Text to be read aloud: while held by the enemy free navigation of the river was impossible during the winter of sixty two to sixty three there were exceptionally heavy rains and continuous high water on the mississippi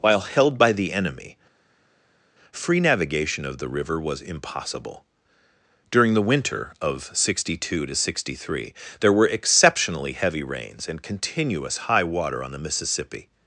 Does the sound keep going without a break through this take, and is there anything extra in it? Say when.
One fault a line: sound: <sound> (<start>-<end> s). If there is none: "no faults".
no faults